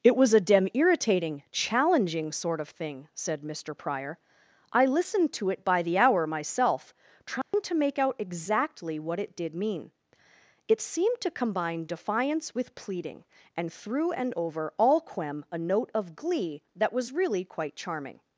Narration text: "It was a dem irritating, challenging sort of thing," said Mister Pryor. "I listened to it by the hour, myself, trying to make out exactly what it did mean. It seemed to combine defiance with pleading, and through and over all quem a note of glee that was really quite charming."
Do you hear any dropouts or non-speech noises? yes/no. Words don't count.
yes